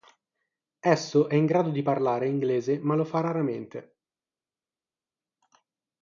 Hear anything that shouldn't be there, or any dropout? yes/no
no